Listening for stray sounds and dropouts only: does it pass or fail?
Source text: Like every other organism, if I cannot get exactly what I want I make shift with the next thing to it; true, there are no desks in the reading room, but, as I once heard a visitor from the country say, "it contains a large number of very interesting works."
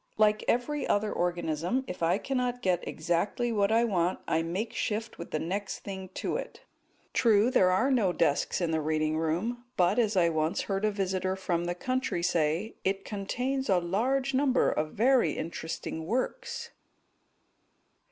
pass